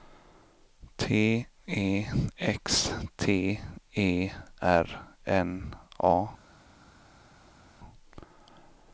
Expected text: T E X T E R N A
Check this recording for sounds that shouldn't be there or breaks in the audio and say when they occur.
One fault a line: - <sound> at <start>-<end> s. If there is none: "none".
none